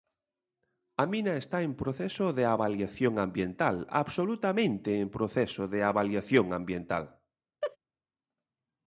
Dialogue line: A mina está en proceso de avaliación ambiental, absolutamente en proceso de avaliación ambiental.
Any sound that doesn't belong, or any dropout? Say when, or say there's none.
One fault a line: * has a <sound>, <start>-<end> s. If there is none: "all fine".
* has a laugh, 7.6-7.8 s